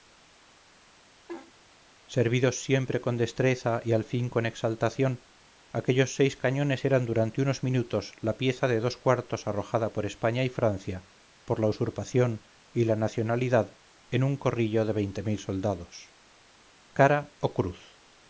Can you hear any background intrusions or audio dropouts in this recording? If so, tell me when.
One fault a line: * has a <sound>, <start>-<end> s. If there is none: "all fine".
* has a laugh, 1.3-1.5 s